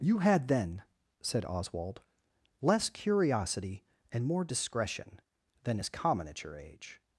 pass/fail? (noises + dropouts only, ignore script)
pass